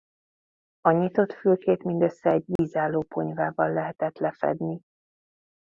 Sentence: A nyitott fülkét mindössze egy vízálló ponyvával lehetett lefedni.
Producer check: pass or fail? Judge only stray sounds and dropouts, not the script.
fail